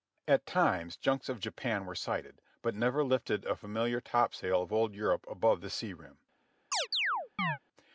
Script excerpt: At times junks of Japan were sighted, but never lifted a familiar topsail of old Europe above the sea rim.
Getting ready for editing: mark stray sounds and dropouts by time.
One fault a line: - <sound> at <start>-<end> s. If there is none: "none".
- chirp at 6.7-7.6 s